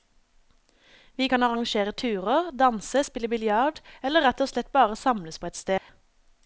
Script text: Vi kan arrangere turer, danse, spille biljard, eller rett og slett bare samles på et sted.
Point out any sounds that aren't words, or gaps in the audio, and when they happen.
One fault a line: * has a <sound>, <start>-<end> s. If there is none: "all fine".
* has a dropout, 5.8-5.9 s